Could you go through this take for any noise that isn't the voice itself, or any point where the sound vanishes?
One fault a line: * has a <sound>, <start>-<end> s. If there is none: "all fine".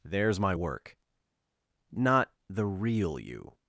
all fine